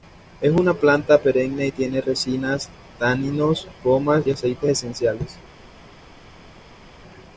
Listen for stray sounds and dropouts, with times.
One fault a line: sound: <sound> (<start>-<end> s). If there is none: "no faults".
no faults